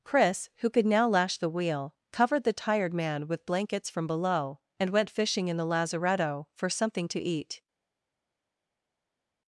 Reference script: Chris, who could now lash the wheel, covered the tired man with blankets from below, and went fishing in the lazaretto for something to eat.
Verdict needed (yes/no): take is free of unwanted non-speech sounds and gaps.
yes